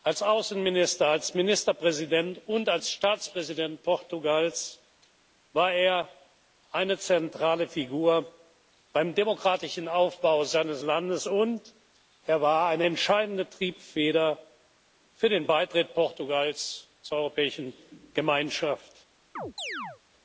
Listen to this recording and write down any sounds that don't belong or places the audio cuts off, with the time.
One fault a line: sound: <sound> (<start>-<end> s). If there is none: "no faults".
sound: chirp (19.4-20.0 s)